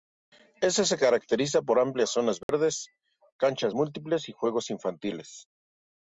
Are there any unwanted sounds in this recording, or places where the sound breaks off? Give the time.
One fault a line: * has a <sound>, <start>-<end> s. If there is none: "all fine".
* has a dropout, 2.4-2.5 s